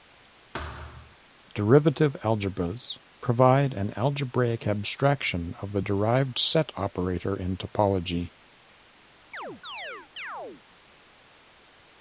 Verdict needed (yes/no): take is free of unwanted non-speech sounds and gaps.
no